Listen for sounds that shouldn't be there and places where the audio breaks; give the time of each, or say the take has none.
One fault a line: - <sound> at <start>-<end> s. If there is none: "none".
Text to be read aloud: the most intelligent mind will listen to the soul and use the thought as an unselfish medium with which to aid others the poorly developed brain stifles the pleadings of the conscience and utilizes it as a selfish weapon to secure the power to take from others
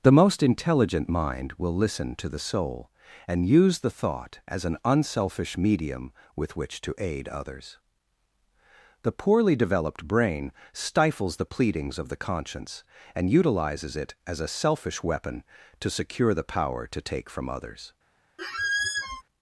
- squeak at 18.4-19.2 s